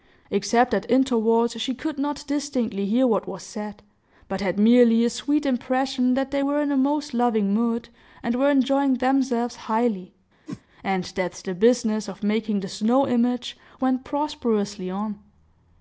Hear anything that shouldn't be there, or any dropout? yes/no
yes